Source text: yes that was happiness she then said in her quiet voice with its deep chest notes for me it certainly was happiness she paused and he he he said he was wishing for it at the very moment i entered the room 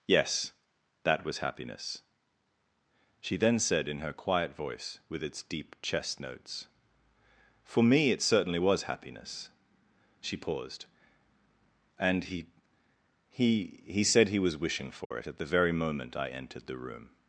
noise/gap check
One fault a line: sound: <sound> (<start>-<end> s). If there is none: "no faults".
sound: dropout (15.0-15.1 s)